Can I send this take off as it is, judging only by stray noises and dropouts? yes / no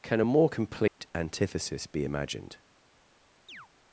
no